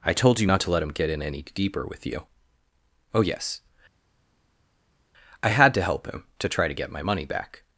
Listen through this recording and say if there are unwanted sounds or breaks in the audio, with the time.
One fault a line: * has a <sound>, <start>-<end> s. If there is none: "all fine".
all fine